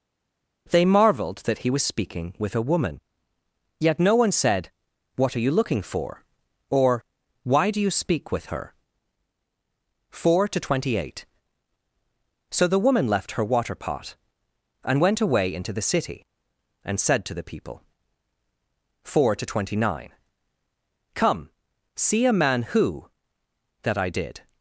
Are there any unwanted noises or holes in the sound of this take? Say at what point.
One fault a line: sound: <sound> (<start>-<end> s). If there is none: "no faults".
no faults